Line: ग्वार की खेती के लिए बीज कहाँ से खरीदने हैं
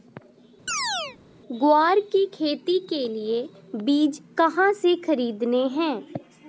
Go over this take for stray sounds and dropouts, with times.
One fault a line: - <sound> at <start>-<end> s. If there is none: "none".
- chirp at 0.7-1.2 s